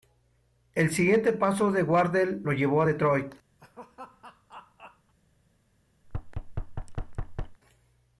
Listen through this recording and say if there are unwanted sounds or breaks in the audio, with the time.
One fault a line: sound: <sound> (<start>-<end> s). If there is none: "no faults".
sound: laugh (3.6-5.1 s)
sound: thud (6.0-7.6 s)